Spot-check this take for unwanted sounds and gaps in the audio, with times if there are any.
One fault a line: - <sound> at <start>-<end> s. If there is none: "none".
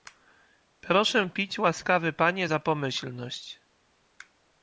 none